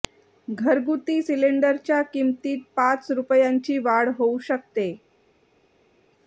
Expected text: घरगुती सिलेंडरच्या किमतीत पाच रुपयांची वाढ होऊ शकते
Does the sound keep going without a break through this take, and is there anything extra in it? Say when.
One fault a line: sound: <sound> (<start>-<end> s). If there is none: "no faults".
no faults